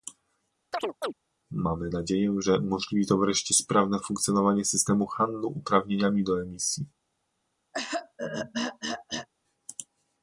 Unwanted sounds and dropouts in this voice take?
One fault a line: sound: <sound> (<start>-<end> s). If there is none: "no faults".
sound: chirp (0.7-1.1 s)
sound: throat clearing (7.7-9.3 s)